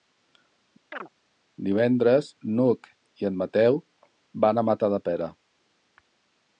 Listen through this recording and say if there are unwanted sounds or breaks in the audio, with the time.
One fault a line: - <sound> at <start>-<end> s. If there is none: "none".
- chirp at 0.9-1.1 s